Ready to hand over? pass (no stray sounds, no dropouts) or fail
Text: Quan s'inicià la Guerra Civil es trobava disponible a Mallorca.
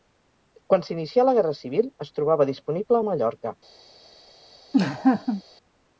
fail